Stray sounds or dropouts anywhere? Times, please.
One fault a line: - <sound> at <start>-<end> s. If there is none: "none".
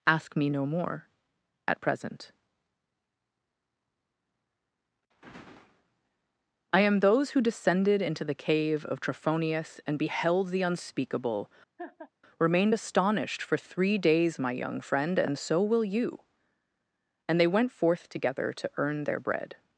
- laugh at 11.8-12.1 s